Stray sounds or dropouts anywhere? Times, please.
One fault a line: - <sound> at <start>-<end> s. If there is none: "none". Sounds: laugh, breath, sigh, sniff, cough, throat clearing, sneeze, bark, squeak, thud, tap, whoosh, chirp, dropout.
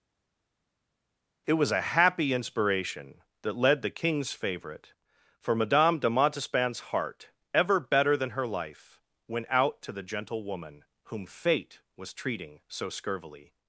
none